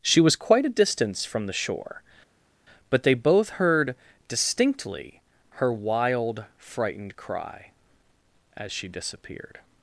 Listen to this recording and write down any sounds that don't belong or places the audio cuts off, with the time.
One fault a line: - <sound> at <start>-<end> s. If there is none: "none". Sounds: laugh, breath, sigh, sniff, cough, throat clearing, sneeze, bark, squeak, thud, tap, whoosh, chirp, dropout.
none